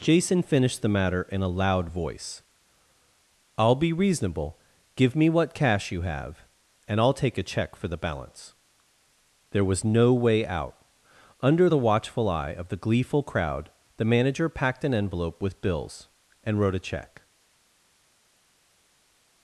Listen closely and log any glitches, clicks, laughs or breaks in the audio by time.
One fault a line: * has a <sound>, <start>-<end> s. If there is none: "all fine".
all fine